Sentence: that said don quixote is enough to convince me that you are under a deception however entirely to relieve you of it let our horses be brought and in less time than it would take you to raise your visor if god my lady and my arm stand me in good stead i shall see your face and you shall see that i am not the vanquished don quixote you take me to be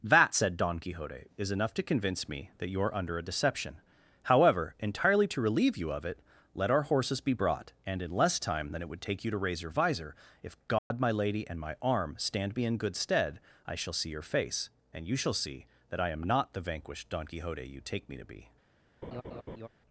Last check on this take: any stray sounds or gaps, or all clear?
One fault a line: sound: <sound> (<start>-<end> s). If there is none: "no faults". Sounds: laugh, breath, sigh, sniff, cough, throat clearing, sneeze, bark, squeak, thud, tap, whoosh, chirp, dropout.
sound: dropout (10.8-10.9 s)
sound: laugh (19.0-19.7 s)